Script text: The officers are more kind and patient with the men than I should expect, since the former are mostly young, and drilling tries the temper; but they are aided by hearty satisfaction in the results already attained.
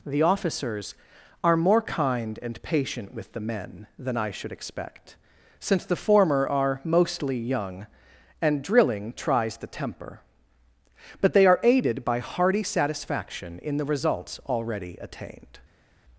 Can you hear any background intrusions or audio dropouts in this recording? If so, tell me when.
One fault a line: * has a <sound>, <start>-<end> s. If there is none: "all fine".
all fine